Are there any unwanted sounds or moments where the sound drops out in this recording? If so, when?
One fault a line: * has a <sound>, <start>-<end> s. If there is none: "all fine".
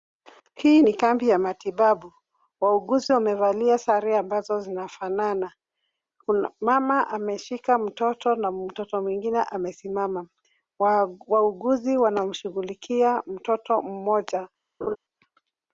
* has a laugh, 14.8-15.0 s